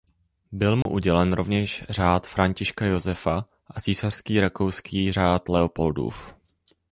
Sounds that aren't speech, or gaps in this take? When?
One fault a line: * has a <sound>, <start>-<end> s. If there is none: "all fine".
* has a dropout, 0.8-0.9 s